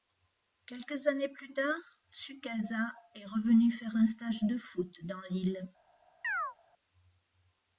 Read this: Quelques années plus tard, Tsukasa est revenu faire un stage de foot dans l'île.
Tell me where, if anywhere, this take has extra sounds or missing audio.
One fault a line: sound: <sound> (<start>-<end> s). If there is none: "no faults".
sound: chirp (6.2-6.6 s)